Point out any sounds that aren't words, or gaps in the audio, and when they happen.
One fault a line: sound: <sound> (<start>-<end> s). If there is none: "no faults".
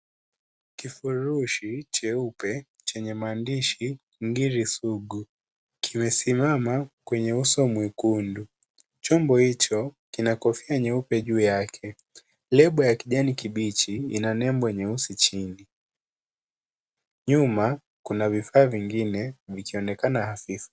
no faults